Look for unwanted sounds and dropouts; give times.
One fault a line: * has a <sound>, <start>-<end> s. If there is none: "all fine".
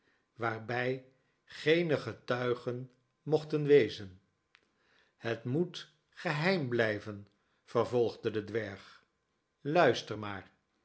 all fine